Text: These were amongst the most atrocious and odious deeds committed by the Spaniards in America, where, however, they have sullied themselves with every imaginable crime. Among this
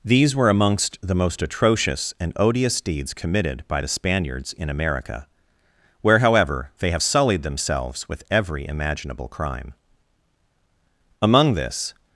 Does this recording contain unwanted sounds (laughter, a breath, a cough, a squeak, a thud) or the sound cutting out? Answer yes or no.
no